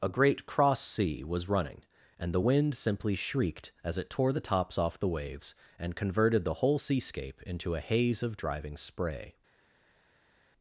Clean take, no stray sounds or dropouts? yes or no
yes